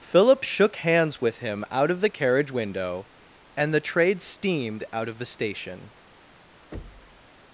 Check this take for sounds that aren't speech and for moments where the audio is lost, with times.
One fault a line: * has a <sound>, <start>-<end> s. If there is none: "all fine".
* has a thud, 6.7-7.2 s